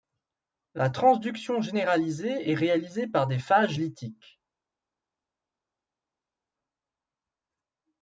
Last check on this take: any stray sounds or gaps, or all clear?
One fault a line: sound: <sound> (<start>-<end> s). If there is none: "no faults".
no faults